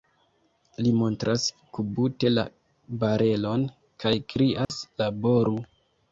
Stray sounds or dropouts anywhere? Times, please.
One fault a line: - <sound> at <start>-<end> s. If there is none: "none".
- dropout at 4.6-4.7 s